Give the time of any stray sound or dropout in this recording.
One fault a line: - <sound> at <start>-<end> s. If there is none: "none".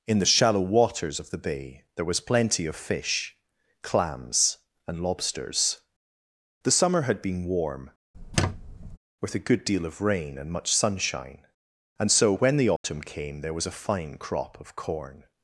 - squeak at 8.1-9.0 s
- dropout at 12.8-12.8 s